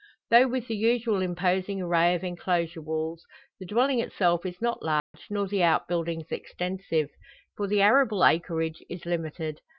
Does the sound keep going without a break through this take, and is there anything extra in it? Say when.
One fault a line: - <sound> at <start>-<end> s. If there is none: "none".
- dropout at 5.0-5.1 s